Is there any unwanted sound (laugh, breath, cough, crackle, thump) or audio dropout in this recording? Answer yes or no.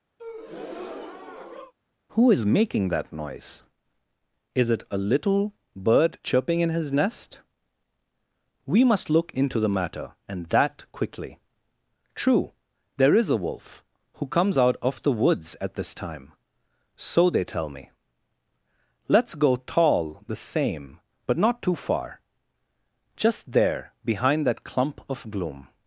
yes